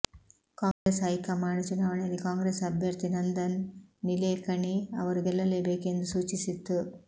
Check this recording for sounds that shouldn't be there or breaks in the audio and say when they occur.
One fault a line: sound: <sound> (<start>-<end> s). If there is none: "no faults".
sound: dropout (0.7-0.9 s)